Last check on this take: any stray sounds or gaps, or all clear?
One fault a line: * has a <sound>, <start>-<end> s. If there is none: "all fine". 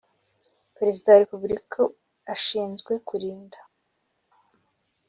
all fine